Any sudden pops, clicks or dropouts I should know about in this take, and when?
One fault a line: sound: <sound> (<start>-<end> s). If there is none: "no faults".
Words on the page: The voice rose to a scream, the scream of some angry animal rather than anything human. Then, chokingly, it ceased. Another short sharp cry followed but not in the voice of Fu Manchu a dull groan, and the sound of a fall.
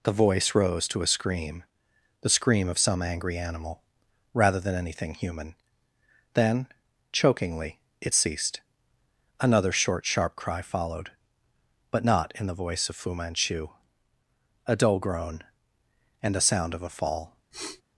sound: sniff (17.5-17.8 s)